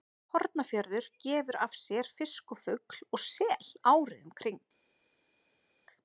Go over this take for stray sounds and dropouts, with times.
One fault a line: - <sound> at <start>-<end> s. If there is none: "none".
none